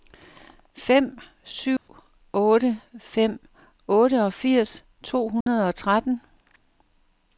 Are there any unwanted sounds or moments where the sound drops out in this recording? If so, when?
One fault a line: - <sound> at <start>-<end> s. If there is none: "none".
- dropout at 1.8-1.9 s
- dropout at 5.4-5.5 s